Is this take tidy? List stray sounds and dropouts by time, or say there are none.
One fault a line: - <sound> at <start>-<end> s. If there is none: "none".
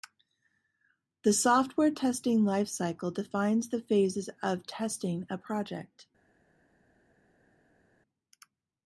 none